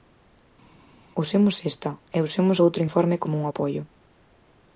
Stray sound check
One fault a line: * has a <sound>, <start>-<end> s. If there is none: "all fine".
all fine